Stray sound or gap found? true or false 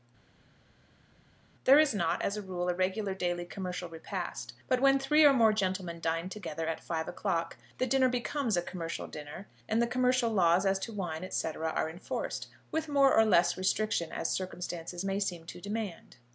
false